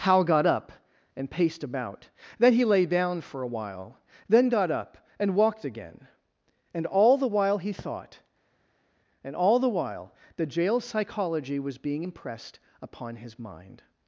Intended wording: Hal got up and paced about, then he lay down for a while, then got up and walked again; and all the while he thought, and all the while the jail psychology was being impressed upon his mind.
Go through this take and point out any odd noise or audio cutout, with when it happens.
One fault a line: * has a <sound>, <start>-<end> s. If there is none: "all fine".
all fine